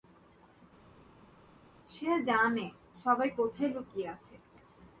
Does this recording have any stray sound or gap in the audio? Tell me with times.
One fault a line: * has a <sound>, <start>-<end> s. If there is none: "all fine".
all fine